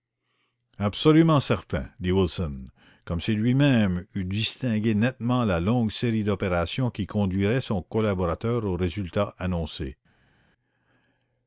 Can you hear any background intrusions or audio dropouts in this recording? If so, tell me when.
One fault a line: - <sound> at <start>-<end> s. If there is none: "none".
none